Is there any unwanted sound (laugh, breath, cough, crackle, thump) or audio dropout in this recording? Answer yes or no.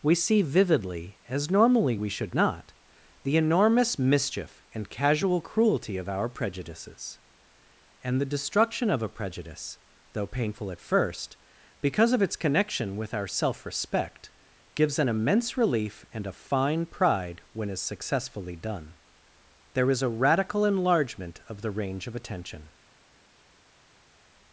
no